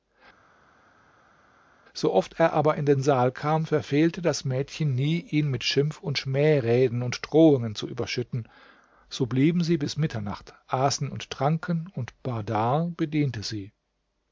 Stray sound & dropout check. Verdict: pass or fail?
pass